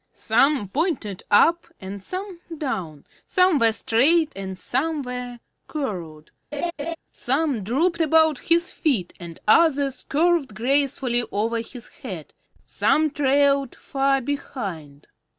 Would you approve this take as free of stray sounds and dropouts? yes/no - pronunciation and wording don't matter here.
no